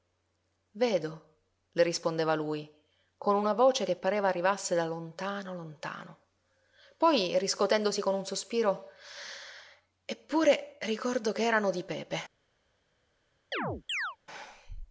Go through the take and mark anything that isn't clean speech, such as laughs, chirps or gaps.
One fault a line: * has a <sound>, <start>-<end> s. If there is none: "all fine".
* has a chirp, 13.5-14.2 s